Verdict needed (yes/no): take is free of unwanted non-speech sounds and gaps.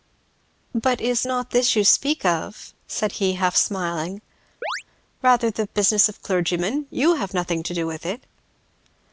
no